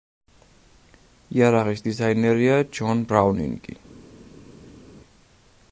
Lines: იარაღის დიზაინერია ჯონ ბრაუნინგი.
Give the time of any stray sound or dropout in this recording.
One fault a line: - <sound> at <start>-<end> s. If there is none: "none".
none